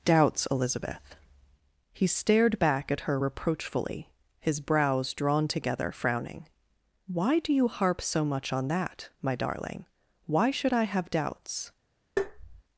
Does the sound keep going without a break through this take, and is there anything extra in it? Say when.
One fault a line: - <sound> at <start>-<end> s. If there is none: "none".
- tap at 12.2-12.6 s